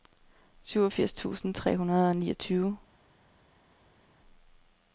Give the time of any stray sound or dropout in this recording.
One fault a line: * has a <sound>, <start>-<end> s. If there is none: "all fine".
all fine